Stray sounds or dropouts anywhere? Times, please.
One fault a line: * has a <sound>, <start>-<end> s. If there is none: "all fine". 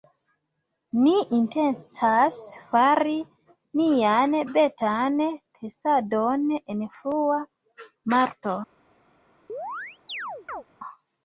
* has a chirp, 9.5-10.6 s